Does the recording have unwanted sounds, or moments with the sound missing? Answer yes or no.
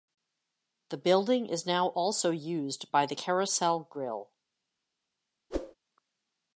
yes